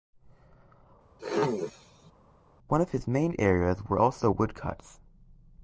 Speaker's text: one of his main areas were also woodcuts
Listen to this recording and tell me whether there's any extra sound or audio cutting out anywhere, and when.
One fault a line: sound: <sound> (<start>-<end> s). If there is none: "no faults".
sound: throat clearing (1.2-2.1 s)